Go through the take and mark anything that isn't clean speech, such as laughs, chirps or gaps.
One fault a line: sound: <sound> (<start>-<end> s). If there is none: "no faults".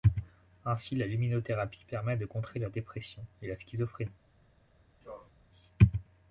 sound: sneeze (5.0-5.3 s)